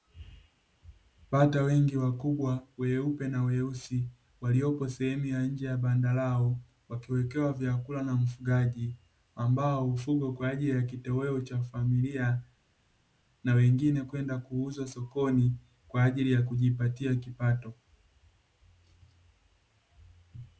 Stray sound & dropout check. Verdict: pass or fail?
pass